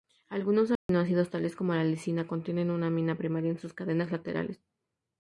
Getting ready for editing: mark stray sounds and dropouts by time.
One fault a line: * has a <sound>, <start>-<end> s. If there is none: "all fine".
* has a dropout, 0.8-0.9 s